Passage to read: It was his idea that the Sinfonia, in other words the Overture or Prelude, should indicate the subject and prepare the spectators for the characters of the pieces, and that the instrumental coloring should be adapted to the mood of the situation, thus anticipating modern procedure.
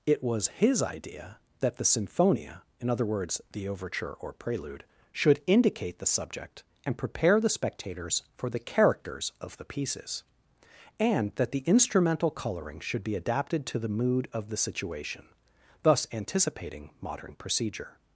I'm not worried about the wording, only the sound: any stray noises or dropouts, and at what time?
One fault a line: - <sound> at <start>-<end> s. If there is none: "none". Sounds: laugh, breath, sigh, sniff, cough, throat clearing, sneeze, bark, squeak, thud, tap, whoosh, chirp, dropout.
none